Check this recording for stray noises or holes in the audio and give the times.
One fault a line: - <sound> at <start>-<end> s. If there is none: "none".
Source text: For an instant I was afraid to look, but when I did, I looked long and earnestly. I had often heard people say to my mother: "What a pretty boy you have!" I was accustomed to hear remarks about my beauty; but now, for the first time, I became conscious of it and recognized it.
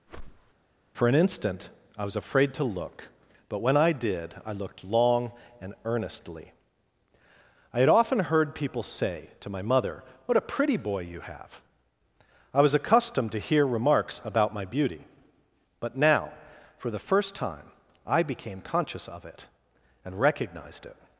- whoosh at 0.1-0.5 s